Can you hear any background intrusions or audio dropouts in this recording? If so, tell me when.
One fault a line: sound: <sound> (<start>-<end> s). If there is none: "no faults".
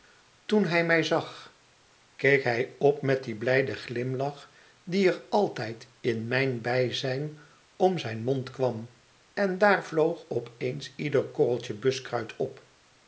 no faults